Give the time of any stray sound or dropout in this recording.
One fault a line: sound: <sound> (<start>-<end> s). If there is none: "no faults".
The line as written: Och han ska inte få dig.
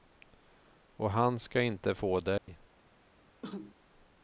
sound: dropout (2.4-2.5 s)
sound: cough (3.4-3.7 s)